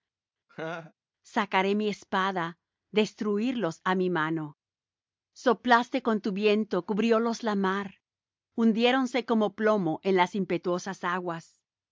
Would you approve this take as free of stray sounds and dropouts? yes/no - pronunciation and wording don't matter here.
no